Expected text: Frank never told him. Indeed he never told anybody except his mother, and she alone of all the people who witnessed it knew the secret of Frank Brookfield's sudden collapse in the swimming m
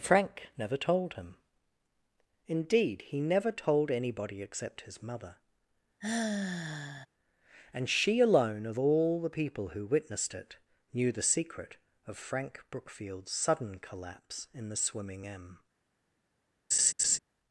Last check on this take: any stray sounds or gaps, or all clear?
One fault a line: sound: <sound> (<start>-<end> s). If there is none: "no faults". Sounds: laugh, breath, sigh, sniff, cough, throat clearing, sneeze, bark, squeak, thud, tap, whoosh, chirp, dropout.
sound: sigh (6.0-7.1 s)
sound: laugh (16.7-17.2 s)